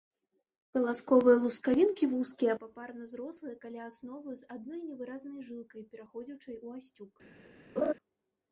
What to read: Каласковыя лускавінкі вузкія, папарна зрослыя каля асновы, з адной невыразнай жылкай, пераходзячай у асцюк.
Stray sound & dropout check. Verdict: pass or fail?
fail